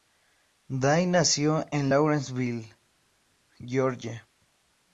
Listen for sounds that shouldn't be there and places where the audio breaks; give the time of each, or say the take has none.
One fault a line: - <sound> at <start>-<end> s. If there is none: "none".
none